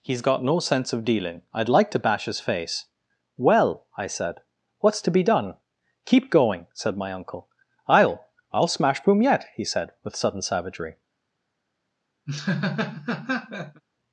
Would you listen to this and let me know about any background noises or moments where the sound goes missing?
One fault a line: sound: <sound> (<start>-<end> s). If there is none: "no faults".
sound: laugh (12.3-13.8 s)